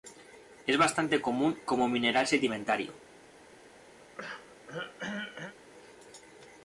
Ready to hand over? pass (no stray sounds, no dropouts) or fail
fail